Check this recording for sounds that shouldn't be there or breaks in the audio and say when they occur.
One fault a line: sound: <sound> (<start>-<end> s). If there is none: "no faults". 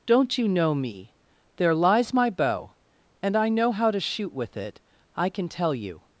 no faults